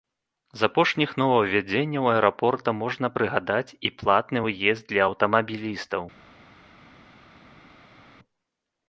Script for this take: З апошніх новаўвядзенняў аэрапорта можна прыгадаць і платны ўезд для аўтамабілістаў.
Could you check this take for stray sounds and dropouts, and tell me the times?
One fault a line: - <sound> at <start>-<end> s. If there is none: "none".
none